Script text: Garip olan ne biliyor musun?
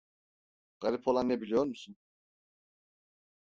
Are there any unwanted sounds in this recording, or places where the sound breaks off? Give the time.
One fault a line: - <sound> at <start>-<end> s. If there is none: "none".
none